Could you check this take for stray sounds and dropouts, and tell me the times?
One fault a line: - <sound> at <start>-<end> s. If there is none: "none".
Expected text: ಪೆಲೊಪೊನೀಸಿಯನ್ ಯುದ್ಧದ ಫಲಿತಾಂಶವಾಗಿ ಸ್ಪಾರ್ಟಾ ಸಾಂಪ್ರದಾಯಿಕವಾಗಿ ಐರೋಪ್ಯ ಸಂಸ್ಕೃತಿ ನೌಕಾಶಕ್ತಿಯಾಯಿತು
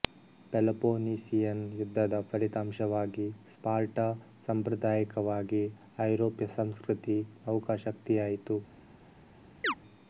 - chirp at 9.6-9.7 s